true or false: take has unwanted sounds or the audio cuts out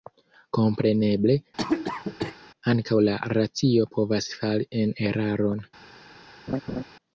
true